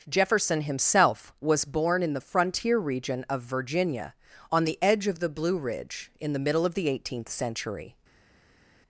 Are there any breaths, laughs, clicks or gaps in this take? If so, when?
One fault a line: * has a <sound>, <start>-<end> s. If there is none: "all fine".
all fine